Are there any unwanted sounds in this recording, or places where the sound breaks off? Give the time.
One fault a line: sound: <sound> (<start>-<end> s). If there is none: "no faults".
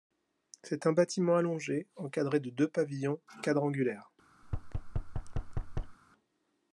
sound: thud (4.4-6.0 s)